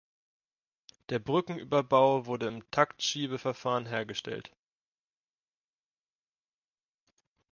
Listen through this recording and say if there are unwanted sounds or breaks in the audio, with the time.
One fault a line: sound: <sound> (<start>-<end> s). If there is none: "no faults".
no faults